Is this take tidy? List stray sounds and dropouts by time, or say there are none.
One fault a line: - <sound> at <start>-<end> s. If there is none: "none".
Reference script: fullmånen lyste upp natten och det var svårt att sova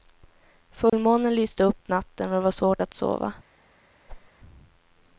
- dropout at 0.9-0.9 s
- whoosh at 4.1-4.3 s